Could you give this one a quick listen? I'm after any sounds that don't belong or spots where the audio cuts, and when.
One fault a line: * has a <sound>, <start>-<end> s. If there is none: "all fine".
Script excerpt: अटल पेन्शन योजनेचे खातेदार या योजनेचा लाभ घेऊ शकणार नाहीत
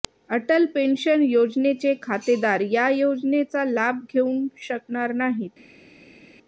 all fine